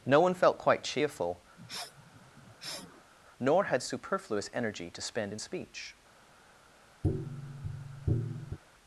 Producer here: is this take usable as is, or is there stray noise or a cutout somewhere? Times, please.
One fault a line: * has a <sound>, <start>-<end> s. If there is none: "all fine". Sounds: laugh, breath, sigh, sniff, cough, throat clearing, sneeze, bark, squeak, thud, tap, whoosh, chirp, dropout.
* has a sniff, 1.6-3.1 s
* has a tap, 7.0-8.6 s